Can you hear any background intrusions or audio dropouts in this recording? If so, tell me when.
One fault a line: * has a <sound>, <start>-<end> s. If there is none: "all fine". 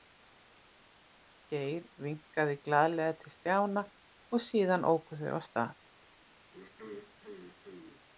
* has a throat clearing, 6.5-8.1 s